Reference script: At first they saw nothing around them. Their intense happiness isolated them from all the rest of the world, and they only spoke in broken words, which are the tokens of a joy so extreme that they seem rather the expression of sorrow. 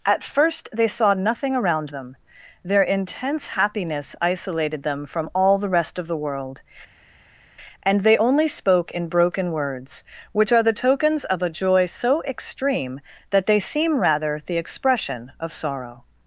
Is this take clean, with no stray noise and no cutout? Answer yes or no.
yes